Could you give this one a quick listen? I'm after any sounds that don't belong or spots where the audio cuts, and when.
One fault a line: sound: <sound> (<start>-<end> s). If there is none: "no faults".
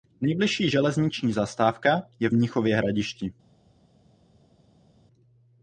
no faults